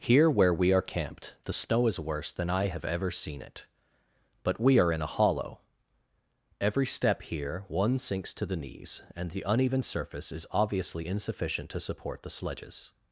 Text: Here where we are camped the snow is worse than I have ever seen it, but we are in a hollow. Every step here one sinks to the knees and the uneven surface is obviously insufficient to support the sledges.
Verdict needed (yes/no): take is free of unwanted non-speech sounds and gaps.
yes